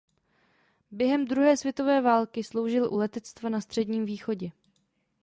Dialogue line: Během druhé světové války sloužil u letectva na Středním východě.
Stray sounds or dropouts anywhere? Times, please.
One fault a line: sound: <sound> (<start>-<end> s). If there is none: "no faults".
no faults